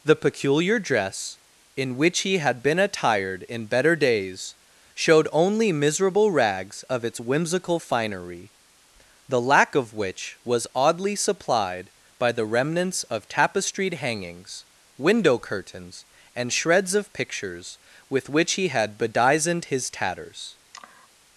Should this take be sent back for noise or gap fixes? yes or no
yes